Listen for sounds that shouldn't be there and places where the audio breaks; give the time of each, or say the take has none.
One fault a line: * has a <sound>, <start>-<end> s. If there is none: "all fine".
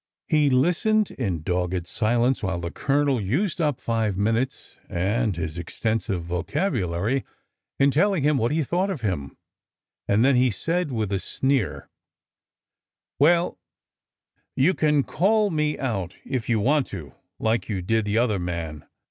all fine